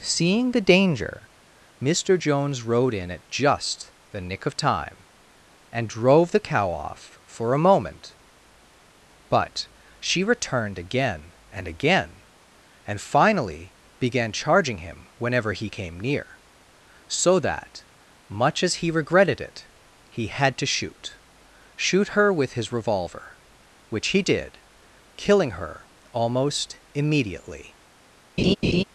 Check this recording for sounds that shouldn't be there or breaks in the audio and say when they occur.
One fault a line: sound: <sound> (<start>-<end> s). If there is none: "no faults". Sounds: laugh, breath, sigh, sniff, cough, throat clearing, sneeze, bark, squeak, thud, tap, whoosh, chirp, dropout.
sound: laugh (28.4-28.8 s)